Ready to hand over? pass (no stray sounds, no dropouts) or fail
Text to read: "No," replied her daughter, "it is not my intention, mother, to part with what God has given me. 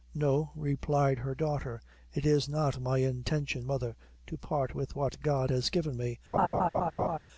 fail